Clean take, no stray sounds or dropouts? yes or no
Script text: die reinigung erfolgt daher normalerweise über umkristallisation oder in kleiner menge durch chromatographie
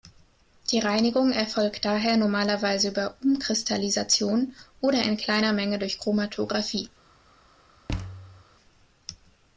no